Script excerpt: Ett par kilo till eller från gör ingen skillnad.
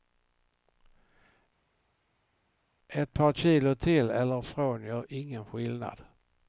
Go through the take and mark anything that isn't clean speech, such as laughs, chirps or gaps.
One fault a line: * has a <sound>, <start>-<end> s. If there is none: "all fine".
all fine